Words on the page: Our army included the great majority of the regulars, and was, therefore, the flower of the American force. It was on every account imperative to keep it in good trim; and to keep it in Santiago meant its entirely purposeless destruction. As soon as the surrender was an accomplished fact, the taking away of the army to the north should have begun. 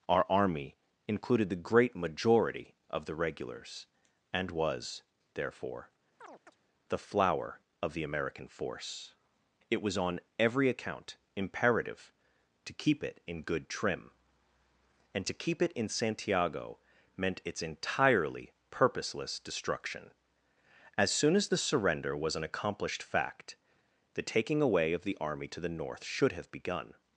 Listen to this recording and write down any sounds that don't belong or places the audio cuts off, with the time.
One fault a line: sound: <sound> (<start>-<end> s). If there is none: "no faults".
sound: chirp (6.2-6.6 s)